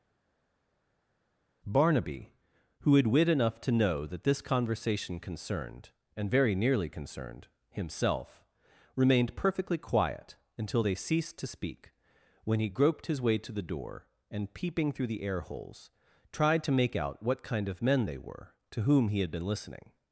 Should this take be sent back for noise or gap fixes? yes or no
no